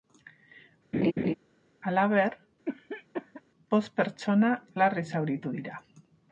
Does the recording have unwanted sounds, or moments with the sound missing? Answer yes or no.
yes